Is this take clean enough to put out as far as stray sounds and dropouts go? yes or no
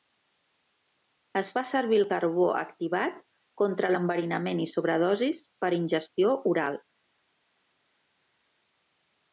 yes